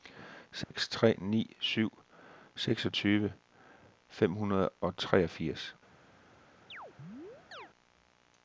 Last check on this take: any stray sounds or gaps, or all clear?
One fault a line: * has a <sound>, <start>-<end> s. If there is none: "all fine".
* has a dropout, 0.6-0.7 s
* has a chirp, 6.7-7.7 s